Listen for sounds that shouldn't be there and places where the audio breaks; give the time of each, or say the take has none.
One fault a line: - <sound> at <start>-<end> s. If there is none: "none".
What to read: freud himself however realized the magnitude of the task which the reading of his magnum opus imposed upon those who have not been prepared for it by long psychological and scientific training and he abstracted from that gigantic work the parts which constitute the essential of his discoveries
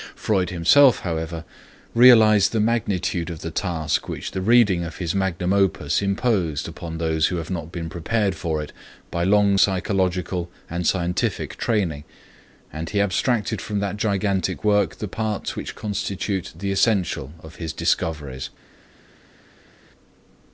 none